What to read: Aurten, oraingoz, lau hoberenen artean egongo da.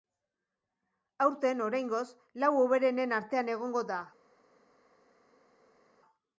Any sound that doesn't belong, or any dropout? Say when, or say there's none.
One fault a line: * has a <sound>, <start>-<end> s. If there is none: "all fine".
all fine